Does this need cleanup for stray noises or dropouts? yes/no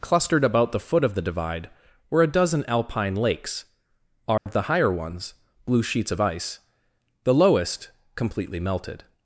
yes